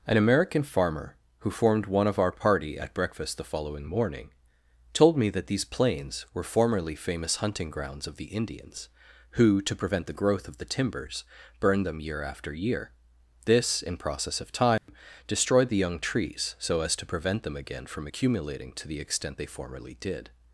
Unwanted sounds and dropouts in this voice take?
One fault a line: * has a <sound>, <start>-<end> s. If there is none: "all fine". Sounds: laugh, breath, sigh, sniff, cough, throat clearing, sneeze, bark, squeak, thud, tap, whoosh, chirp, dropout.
* has a dropout, 14.8-14.9 s